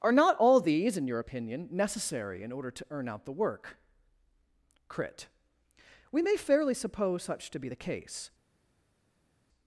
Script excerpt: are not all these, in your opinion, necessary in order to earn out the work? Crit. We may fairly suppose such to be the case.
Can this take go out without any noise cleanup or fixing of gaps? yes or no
yes